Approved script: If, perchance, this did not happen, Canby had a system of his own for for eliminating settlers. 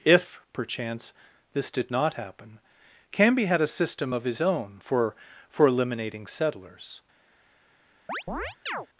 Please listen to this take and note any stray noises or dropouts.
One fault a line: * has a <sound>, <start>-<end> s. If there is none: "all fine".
* has a chirp, 8.1-8.9 s